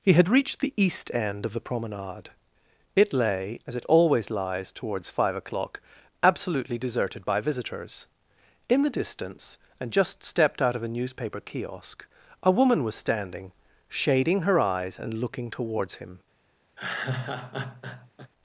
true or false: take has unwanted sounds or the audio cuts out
true